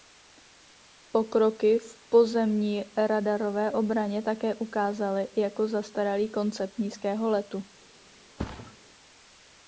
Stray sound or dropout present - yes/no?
yes